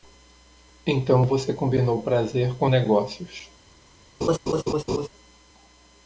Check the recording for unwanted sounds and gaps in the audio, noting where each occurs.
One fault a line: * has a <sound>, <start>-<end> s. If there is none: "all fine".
* has a laugh, 4.2-5.1 s